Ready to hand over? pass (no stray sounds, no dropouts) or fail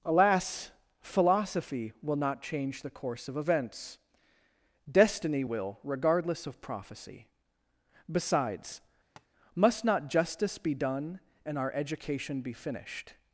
fail